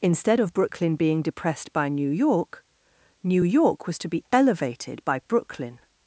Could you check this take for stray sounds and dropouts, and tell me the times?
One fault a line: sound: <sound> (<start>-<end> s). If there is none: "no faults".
no faults